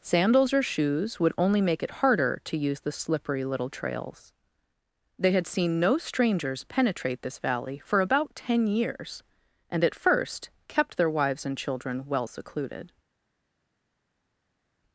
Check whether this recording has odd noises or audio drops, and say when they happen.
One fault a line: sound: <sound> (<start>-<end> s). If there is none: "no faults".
no faults